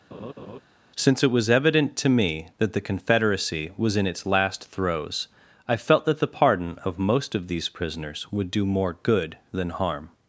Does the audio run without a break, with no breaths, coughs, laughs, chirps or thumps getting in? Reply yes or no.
no